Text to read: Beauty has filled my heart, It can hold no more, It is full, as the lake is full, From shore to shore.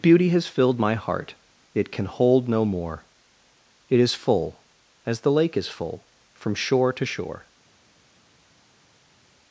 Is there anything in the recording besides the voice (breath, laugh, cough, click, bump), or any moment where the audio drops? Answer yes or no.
no